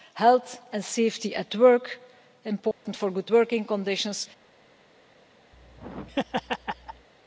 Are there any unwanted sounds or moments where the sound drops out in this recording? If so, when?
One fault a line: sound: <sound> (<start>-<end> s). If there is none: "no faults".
sound: dropout (2.7-2.9 s)
sound: laugh (5.5-7.1 s)